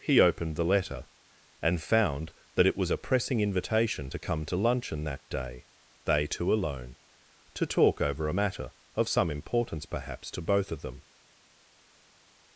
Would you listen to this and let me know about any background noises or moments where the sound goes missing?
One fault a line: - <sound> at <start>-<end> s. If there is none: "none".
none